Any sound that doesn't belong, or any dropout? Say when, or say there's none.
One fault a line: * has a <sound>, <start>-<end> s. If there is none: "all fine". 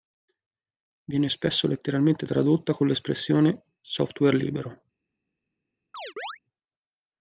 * has a chirp, 5.9-6.4 s